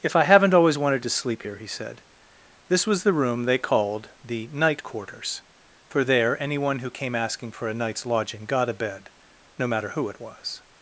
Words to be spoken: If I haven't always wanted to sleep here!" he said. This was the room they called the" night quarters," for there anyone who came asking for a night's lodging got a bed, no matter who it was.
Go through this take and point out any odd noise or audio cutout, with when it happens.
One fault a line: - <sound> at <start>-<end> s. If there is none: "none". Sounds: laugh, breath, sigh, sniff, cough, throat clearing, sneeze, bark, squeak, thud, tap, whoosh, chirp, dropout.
none